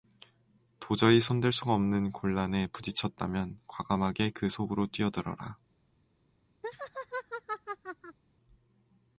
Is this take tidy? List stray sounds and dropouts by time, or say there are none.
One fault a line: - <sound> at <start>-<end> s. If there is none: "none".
- laugh at 6.6-8.2 s